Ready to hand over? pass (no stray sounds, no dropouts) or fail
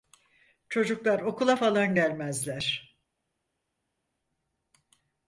pass